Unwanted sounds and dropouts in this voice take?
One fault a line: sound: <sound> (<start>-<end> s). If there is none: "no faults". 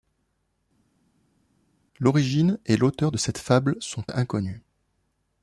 no faults